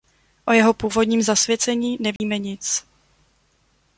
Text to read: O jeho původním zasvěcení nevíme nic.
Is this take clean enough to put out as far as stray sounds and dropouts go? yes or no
no